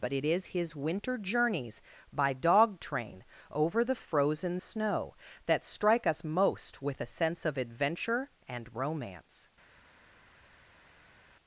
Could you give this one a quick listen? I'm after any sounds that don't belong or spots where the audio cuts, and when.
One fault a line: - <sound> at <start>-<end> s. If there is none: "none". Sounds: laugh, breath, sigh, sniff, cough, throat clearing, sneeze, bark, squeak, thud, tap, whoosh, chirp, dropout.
none